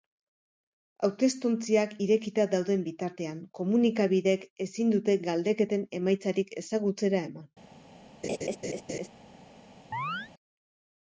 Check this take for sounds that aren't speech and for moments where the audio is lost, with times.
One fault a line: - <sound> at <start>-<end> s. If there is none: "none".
- laugh at 8.2-9.1 s
- chirp at 9.9-10.3 s